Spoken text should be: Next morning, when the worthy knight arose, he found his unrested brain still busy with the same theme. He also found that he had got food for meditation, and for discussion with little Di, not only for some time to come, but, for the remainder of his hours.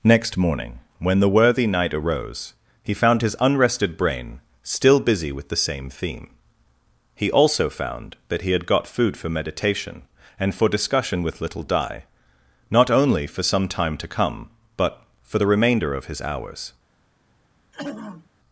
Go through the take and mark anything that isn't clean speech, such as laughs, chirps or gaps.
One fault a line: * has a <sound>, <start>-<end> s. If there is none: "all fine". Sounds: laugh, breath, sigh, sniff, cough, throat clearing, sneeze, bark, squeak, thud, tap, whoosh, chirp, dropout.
* has a throat clearing, 17.7-18.3 s